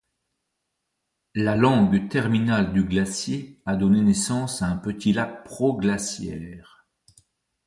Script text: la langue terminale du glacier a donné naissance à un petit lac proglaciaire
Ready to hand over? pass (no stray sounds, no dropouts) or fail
pass